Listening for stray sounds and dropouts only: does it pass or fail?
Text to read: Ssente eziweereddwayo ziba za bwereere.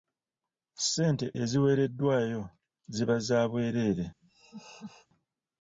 fail